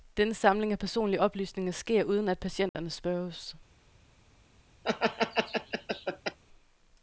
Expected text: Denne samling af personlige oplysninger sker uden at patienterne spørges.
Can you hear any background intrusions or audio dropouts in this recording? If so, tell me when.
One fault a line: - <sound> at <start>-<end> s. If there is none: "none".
- dropout at 2.7-2.7 s
- laugh at 4.8-6.4 s